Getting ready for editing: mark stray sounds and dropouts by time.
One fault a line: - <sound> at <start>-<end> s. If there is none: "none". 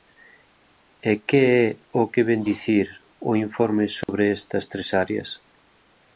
- dropout at 4.0-4.1 s